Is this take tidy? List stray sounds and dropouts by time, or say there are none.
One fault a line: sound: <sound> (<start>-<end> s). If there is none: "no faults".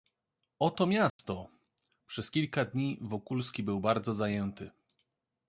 sound: dropout (1.1-1.2 s)